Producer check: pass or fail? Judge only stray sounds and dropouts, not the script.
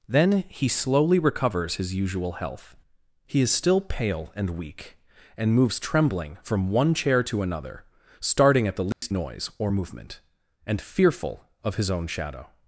fail